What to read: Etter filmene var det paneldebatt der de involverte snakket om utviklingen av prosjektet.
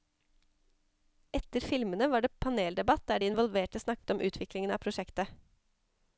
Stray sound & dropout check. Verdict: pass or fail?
fail